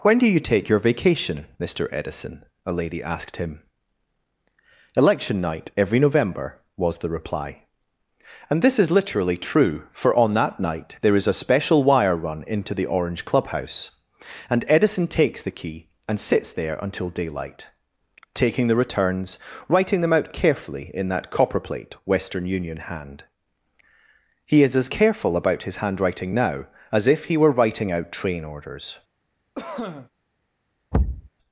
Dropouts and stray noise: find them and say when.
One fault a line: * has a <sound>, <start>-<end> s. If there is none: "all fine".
* has a cough, 29.5-30.1 s
* has a thud, 30.9-31.3 s